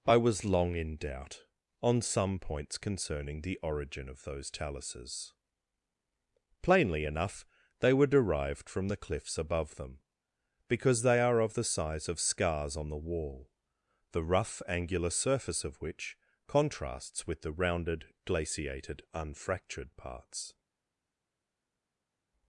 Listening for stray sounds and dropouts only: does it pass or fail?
pass